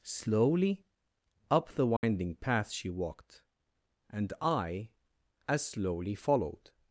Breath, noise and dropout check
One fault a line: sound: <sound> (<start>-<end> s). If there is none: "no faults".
sound: dropout (2.0-2.0 s)